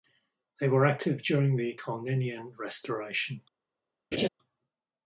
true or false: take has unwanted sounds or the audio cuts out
true